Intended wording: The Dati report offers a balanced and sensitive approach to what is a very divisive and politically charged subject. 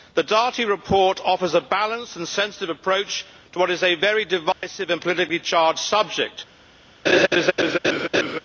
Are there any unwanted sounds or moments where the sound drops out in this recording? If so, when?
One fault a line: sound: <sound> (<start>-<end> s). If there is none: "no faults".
sound: dropout (4.5-4.6 s)
sound: laugh (7.1-8.4 s)